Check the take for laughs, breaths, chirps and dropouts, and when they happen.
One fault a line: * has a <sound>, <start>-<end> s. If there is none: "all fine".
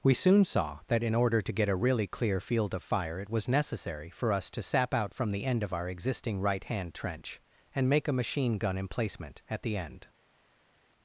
all fine